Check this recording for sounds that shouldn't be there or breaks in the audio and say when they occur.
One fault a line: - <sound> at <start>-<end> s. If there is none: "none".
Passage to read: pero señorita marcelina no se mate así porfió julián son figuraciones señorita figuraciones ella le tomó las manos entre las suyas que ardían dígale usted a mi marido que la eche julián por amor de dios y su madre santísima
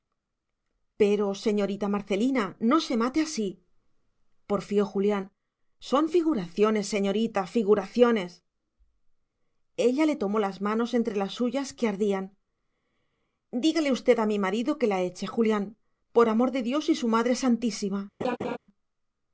- laugh at 18.2-18.6 s